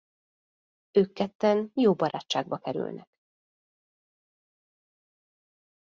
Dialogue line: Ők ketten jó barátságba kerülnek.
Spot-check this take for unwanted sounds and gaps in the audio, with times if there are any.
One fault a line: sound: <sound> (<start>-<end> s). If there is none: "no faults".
no faults